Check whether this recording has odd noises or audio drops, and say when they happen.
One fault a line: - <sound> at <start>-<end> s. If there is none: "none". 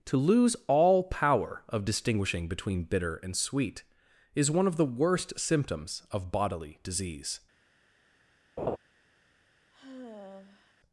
- laugh at 8.6-8.8 s
- sigh at 9.7-10.7 s